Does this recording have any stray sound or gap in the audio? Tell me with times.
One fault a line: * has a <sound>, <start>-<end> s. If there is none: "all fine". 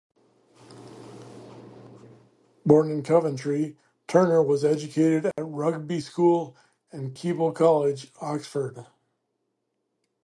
* has a dropout, 5.3-5.4 s